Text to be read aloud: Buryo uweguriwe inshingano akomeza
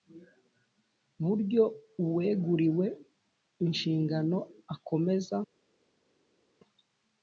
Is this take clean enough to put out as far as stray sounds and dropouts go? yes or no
yes